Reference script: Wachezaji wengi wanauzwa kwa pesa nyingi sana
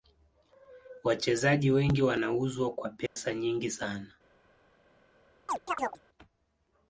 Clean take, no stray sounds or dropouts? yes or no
no